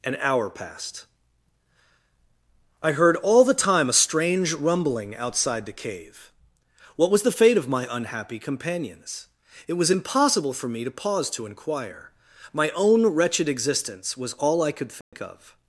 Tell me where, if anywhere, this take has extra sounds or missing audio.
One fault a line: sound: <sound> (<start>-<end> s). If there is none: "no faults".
sound: dropout (15.0-15.1 s)